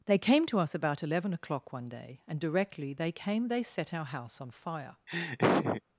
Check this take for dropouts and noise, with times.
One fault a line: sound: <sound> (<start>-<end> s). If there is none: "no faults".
sound: laugh (5.1-5.8 s)